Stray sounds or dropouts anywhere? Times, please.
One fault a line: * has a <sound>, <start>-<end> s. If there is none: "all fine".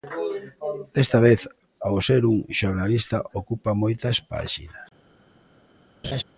* has a laugh, 6.0-6.2 s